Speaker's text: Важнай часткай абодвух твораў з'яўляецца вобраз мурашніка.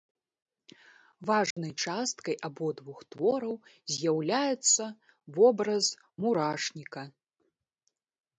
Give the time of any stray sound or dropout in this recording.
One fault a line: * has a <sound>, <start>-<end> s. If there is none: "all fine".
* has a dropout, 1.5-1.6 s